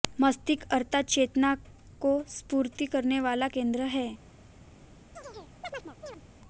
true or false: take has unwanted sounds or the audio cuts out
true